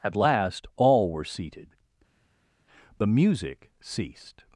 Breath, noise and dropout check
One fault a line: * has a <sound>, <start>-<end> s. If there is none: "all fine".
all fine